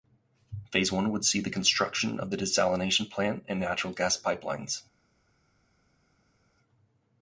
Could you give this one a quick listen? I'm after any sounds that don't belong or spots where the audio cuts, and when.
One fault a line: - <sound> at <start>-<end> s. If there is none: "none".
none